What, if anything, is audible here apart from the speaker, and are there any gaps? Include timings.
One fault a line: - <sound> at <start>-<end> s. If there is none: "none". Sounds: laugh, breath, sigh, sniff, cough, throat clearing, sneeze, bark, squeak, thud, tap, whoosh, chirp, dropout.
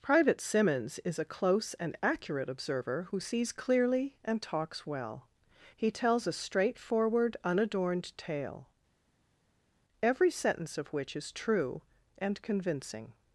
none